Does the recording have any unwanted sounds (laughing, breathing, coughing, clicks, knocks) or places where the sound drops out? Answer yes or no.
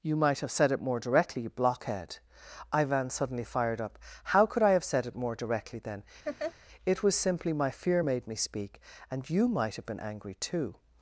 yes